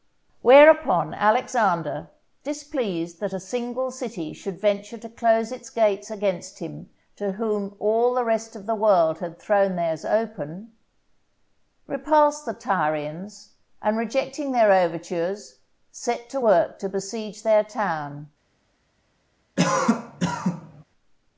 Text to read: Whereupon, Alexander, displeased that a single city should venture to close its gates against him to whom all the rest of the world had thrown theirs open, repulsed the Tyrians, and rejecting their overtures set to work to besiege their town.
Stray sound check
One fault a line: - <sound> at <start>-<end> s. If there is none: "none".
- cough at 19.6-20.8 s